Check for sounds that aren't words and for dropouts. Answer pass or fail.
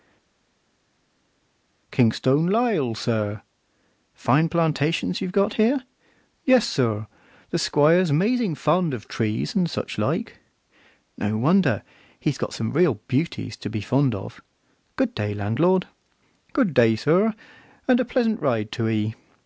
pass